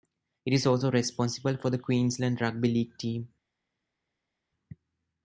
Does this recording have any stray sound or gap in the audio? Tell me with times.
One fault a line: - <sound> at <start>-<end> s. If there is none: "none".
none